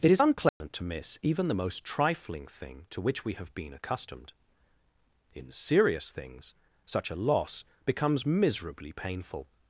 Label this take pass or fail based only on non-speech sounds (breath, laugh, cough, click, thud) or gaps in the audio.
fail